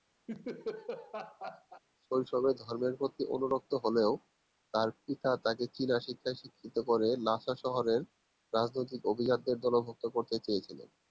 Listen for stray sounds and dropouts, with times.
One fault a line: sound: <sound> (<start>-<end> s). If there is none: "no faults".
sound: laugh (0.3-1.8 s)